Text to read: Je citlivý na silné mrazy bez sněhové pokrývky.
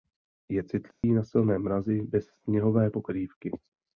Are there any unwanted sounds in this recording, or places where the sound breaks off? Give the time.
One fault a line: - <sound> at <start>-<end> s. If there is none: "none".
- dropout at 0.9-1.0 s